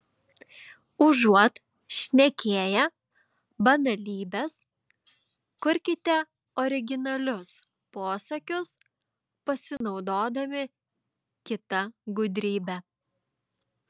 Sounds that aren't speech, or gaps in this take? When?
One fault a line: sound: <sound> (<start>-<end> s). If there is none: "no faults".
sound: dropout (9.8-9.8 s)